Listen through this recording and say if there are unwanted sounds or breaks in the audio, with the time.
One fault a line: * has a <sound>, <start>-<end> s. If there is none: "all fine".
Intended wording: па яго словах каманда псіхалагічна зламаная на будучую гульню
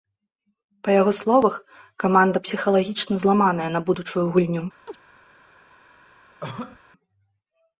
* has a chirp, 4.9-5.0 s
* has a cough, 6.4-6.8 s